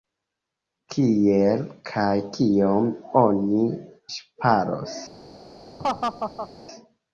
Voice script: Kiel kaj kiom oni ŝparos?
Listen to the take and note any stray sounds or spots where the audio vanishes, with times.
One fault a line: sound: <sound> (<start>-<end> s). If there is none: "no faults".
sound: laugh (5.8-6.5 s)